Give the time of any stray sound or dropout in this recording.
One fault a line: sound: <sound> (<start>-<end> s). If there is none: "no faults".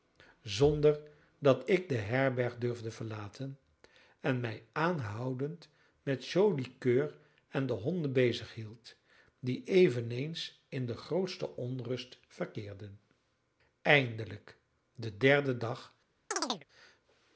sound: chirp (16.3-16.6 s)